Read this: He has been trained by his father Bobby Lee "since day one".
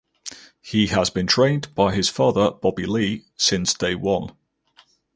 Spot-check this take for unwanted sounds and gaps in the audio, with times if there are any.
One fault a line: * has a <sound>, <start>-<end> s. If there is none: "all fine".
all fine